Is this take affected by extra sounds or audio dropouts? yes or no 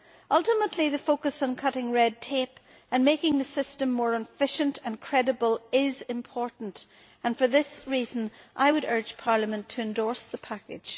no